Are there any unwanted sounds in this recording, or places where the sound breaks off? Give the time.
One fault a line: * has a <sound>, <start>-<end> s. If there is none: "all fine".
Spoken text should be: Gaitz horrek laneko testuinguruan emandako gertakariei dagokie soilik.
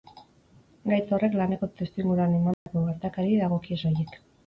* has a dropout, 2.5-2.7 s